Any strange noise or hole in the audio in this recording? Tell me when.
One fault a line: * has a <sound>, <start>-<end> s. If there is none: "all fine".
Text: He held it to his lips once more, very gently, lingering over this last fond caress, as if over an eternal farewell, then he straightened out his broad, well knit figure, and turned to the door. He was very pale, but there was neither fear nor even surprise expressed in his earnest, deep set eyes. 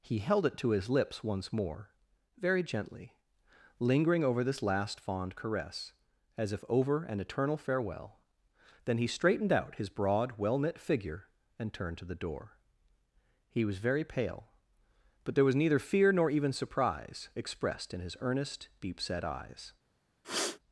* has a sniff, 20.2-20.6 s